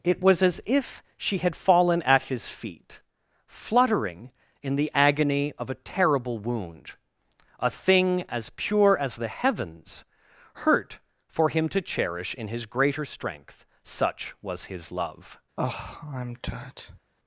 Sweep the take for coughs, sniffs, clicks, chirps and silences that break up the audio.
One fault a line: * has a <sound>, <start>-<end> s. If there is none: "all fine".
* has a sigh, 15.6-17.0 s